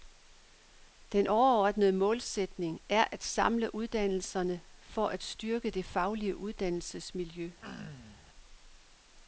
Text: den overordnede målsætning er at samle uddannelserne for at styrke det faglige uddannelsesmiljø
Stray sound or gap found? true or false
true